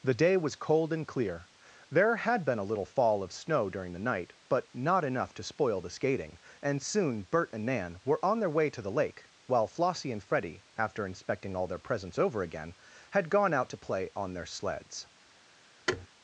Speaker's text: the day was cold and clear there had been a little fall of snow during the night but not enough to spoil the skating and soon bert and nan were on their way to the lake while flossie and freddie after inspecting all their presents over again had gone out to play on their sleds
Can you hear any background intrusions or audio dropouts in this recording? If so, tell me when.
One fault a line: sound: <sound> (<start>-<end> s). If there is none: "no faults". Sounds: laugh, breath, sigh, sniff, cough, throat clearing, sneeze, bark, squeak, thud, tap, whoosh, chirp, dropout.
sound: thud (15.9-16.1 s)